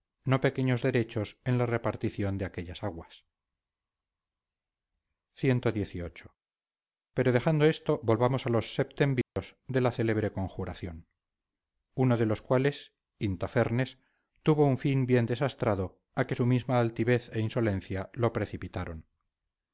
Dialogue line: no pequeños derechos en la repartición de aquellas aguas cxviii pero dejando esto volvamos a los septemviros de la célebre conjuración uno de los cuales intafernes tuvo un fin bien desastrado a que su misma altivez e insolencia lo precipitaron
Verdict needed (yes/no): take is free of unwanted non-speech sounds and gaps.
no